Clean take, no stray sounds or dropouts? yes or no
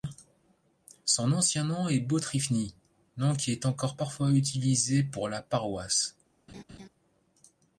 no